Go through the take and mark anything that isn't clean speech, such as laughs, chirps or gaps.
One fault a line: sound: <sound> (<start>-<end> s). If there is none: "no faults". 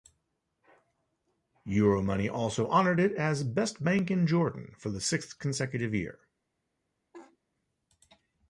sound: laugh (7.1-7.4 s)